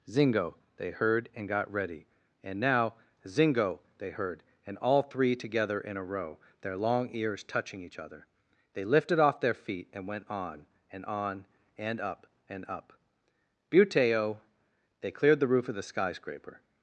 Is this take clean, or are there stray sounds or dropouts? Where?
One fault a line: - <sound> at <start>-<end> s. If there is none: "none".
none